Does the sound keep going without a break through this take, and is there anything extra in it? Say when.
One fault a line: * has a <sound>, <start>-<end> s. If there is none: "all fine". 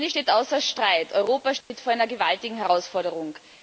* has a dropout, 1.6-1.7 s